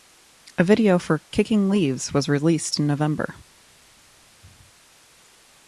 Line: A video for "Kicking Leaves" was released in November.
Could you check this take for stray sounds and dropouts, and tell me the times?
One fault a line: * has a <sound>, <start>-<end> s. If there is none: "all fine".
all fine